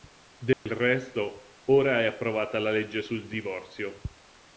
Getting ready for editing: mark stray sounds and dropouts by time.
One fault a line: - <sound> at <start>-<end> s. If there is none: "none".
- dropout at 0.5-0.7 s